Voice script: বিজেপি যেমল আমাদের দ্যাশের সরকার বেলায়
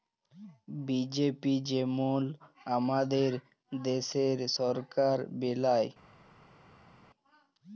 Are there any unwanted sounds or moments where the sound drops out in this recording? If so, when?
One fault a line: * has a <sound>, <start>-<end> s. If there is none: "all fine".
all fine